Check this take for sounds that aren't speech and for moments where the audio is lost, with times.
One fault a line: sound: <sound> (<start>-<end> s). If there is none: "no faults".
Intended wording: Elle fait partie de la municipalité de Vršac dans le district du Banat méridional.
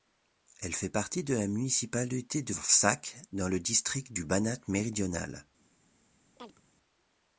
sound: chirp (6.4-6.6 s)